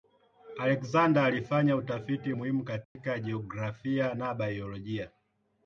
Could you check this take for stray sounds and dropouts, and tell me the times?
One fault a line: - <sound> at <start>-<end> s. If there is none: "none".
- dropout at 2.8-3.0 s